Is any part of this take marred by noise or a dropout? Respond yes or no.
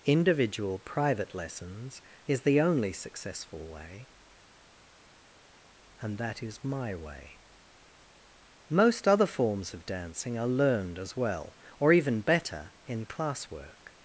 no